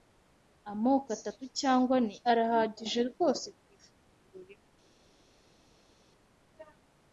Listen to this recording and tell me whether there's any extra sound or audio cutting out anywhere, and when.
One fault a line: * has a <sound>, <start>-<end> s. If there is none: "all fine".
all fine